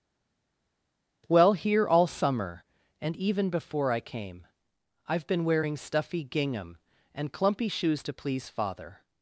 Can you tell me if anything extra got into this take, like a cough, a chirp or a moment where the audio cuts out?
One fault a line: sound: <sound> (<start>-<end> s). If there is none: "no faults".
no faults